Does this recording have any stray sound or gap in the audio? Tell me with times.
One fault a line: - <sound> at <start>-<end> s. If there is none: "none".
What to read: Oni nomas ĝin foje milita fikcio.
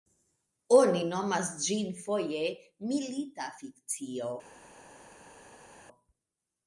none